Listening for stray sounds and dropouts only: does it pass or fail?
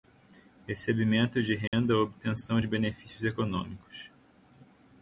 fail